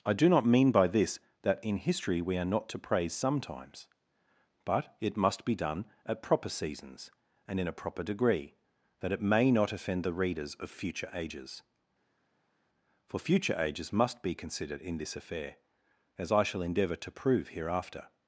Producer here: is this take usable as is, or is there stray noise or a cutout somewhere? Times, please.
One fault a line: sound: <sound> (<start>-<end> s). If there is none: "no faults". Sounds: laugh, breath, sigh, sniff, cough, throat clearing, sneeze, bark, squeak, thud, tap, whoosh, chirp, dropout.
no faults